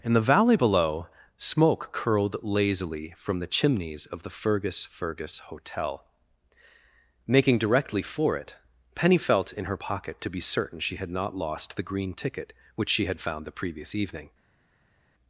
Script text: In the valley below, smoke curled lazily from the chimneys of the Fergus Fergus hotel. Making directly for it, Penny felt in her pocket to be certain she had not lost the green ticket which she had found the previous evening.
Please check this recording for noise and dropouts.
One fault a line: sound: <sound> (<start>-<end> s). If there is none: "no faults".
no faults